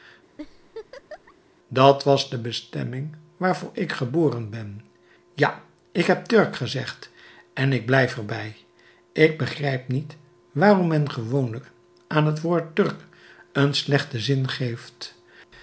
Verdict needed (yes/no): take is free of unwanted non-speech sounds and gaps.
no